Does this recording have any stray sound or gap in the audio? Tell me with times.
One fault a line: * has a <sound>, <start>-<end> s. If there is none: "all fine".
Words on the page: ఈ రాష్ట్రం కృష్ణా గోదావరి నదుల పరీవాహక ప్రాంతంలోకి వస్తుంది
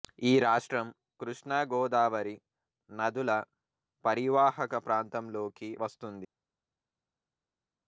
all fine